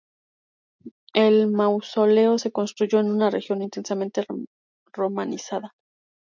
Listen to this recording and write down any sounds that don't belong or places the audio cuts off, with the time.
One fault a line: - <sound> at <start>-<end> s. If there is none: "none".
none